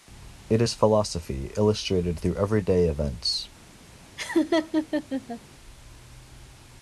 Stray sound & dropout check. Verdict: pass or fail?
fail